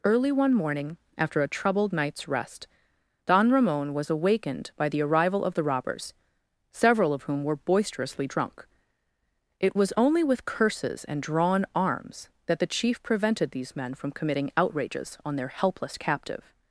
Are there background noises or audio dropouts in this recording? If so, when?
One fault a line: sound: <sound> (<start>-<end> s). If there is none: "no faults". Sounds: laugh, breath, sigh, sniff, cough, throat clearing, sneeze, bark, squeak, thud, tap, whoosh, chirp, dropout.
no faults